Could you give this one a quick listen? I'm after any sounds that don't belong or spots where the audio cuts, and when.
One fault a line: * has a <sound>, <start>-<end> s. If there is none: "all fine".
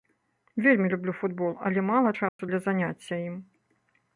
* has a dropout, 2.3-2.4 s